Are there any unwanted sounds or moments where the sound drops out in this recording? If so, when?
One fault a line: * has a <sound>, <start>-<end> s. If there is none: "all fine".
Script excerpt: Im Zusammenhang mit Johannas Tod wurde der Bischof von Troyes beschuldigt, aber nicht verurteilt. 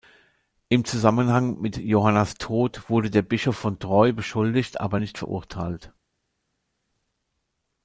all fine